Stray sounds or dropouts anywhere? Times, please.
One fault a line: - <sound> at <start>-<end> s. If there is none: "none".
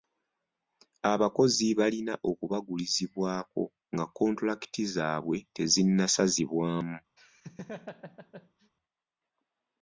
- laugh at 7.2-8.7 s